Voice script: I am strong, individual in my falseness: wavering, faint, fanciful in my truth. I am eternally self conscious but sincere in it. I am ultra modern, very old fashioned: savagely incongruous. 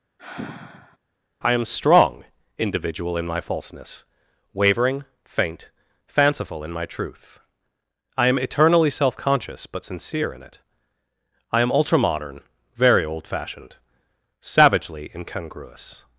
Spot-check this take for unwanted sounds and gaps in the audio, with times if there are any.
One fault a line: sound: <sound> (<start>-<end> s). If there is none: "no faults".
sound: sigh (0.2-1.0 s)